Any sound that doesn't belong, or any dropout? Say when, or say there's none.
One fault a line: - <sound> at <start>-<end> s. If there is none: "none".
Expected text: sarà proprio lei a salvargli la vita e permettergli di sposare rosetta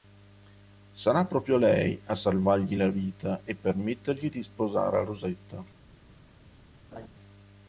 - laugh at 6.9-7.1 s